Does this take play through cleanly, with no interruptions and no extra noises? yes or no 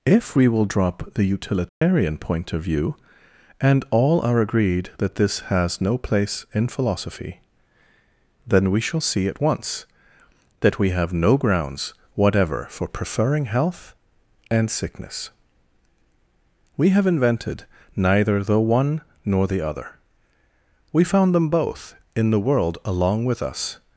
no